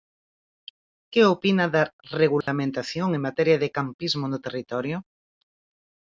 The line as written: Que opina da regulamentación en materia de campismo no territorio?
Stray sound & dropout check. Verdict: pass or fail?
fail